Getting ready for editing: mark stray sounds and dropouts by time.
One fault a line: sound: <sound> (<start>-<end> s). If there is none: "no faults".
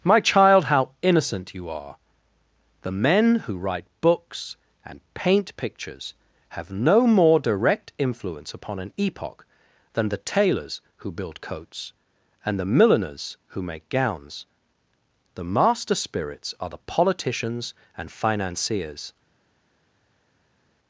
no faults